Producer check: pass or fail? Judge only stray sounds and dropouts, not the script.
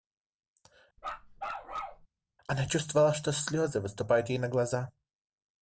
fail